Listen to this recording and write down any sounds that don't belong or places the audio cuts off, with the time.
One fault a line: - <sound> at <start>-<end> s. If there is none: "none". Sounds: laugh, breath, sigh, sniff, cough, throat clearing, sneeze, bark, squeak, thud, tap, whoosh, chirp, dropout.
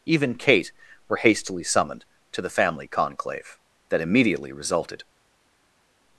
none